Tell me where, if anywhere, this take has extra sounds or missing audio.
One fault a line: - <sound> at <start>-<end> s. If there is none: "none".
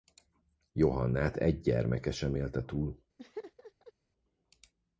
- laugh at 3.2-3.9 s